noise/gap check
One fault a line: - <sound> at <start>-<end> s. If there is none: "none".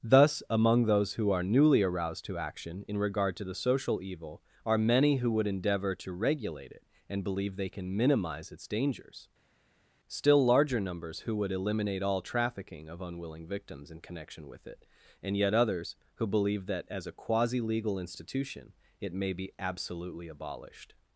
none